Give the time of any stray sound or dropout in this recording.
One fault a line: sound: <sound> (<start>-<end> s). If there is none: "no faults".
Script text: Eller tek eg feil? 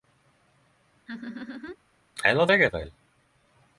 sound: laugh (1.1-1.8 s)